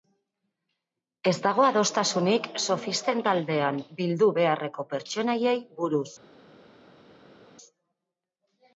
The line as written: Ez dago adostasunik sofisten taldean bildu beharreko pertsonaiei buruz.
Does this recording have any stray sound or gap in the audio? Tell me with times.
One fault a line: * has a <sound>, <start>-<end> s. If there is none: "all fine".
all fine